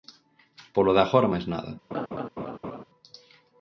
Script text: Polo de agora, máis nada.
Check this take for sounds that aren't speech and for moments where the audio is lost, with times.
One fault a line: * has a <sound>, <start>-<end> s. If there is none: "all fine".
* has a laugh, 1.9-2.8 s